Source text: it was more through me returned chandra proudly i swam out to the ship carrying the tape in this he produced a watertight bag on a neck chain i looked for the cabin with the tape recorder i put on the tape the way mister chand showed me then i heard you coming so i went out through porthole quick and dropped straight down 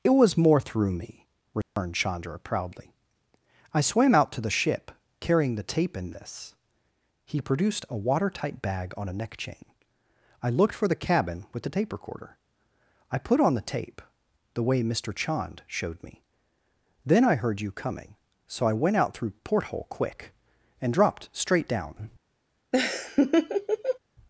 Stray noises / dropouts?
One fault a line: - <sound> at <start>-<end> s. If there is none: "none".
- dropout at 1.6-1.8 s
- laugh at 22.7-24.0 s